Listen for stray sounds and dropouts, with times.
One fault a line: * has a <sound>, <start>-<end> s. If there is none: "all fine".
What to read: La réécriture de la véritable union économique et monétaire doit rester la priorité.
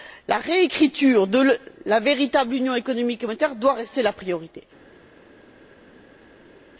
all fine